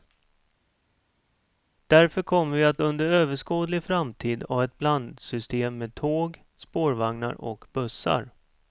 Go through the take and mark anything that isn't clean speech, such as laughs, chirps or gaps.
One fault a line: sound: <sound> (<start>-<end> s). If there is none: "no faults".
no faults